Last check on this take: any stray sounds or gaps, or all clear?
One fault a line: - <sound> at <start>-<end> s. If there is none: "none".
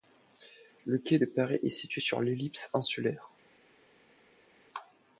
none